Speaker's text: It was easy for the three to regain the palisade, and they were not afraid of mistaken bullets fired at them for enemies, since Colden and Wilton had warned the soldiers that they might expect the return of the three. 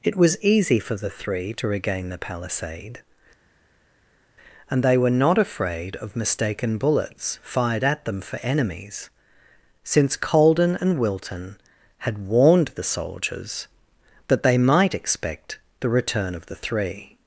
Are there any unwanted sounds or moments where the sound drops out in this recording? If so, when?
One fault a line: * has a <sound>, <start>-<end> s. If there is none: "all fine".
all fine